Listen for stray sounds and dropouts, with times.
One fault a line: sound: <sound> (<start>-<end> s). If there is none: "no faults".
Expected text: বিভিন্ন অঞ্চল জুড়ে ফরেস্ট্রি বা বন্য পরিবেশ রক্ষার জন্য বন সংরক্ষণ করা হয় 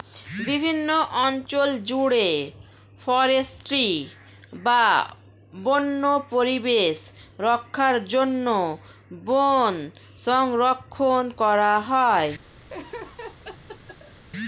sound: laugh (12.7-14.2 s)